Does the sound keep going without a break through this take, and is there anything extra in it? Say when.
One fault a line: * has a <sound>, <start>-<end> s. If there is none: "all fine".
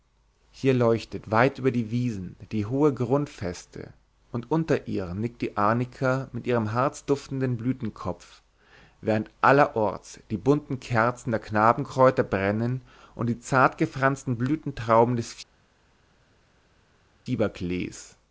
all fine